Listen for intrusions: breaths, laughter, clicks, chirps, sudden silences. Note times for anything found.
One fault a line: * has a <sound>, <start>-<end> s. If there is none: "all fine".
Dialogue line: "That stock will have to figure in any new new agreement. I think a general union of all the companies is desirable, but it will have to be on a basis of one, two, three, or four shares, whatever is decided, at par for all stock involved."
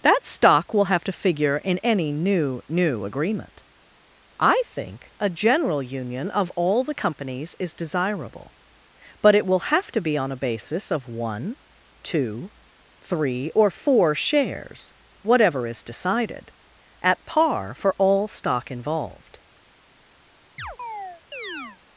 * has a chirp, 20.6-21.8 s